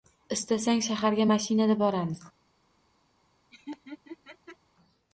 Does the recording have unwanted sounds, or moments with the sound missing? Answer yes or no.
yes